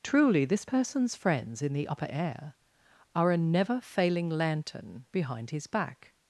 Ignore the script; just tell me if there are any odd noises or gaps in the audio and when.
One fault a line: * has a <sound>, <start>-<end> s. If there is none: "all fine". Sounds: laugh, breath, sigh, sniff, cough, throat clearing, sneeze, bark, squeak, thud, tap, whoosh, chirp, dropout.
all fine